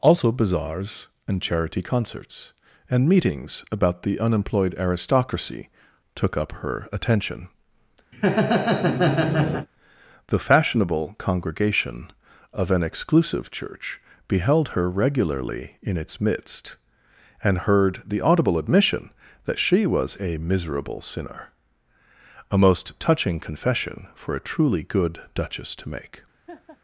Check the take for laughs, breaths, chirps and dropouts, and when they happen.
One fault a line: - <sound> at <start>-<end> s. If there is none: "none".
- laugh at 8.1-9.7 s
- laugh at 26.5-26.8 s